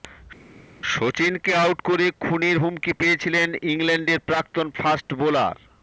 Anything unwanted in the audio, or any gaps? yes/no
no